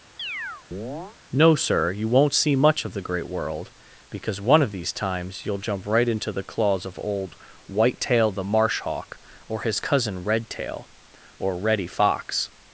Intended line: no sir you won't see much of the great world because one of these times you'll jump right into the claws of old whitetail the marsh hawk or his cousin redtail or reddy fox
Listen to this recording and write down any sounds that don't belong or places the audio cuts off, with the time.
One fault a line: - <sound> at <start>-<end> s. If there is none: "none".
- chirp at 0.2-1.2 s